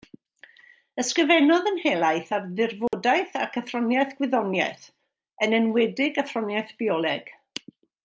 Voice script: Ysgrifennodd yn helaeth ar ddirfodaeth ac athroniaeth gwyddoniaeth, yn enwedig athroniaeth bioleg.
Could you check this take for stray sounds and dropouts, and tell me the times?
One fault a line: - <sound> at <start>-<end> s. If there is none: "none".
- dropout at 2.9-2.9 s